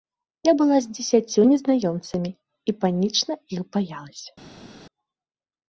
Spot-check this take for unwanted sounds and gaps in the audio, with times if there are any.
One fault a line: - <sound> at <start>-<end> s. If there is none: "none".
none